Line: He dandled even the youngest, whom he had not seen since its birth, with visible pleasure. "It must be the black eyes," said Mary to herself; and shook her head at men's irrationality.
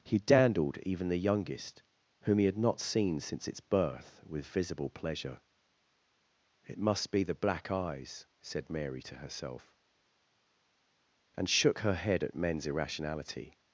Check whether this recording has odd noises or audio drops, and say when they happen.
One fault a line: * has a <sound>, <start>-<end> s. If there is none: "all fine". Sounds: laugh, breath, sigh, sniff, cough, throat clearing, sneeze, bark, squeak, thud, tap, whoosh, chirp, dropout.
all fine